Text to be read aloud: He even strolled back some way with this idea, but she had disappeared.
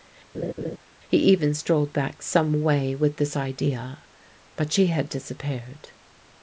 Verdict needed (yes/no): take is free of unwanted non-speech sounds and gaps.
no